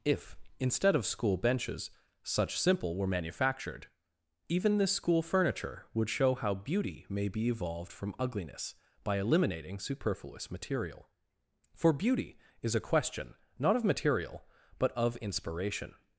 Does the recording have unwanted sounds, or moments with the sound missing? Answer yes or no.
no